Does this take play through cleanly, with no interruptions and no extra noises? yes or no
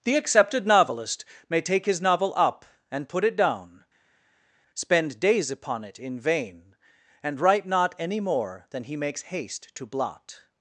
yes